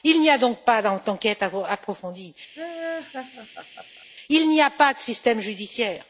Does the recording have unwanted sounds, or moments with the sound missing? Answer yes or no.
yes